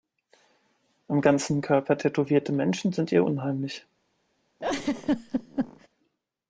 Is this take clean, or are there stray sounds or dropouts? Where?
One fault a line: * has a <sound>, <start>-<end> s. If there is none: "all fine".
* has a laugh, 4.6-5.9 s